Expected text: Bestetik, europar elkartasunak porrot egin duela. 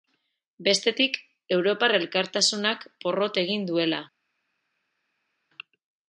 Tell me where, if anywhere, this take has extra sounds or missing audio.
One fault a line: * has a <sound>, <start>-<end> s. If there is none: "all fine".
all fine